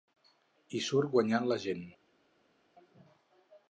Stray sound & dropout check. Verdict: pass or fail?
pass